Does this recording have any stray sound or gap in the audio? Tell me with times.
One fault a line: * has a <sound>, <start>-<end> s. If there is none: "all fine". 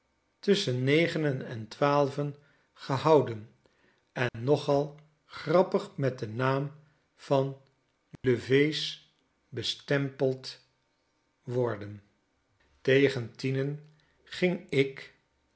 * has a dropout, 4.3-4.3 s
* has a dropout, 8.2-8.2 s